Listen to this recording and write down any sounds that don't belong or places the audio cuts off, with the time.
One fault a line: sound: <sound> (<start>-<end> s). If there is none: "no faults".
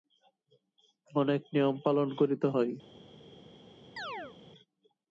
sound: chirp (4.0-4.4 s)